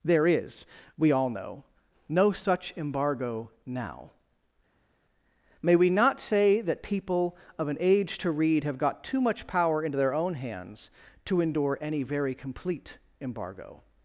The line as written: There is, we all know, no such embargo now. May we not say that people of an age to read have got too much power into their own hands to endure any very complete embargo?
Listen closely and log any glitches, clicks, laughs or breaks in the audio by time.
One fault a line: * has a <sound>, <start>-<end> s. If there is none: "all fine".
all fine